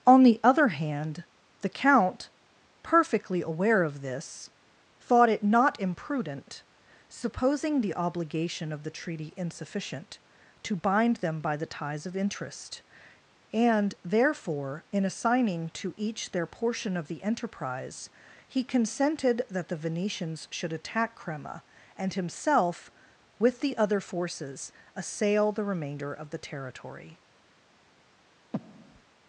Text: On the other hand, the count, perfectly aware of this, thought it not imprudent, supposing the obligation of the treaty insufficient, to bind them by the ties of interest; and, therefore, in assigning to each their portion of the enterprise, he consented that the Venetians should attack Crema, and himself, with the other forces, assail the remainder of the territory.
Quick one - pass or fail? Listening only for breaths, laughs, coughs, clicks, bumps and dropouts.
fail